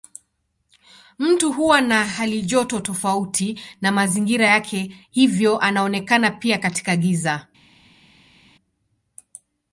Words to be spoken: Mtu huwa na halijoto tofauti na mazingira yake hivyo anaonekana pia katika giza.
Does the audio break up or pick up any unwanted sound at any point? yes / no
no